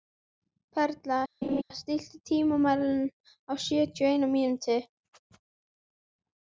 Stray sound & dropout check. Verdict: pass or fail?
fail